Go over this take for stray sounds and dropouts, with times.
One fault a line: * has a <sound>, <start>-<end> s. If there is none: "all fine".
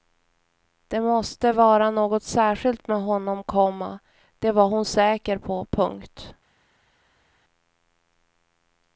all fine